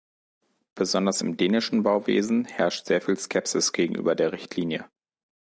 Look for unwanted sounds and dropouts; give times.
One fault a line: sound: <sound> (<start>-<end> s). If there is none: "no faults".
no faults